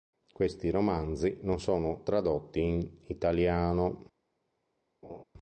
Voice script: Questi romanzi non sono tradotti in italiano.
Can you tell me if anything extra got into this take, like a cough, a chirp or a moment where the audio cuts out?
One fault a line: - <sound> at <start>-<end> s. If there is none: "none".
- laugh at 5.0-5.2 s